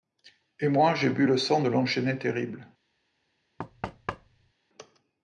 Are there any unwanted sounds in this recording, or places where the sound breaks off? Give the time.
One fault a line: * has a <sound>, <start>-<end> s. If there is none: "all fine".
* has a thud, 3.6-4.5 s